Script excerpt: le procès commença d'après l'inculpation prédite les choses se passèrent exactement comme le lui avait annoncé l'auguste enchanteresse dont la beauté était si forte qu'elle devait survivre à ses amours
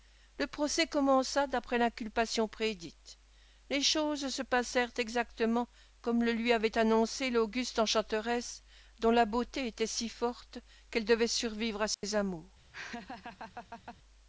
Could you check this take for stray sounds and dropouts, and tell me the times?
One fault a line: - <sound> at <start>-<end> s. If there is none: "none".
- dropout at 11.9-12.0 s
- laugh at 12.7-14.0 s